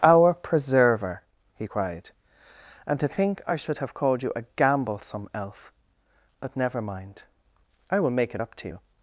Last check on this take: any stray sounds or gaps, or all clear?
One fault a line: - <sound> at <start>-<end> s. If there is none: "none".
none